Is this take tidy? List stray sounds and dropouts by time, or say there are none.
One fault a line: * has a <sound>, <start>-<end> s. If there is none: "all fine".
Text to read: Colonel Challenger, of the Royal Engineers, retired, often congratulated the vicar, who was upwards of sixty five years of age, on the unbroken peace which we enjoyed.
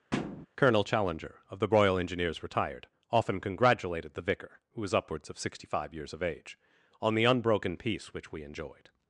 * has a thud, 0.1-0.5 s